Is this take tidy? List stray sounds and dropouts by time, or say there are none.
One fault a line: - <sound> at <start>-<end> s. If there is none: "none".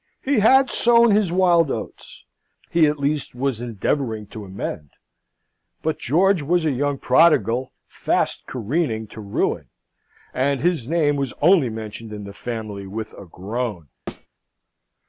- thud at 14.1-14.3 s